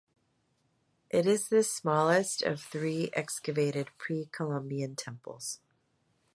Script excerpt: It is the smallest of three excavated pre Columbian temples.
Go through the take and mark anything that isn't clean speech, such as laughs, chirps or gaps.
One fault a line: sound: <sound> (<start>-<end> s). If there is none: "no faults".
no faults